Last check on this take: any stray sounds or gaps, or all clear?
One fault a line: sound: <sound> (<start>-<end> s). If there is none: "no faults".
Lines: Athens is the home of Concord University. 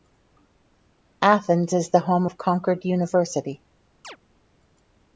sound: chirp (4.0-4.2 s)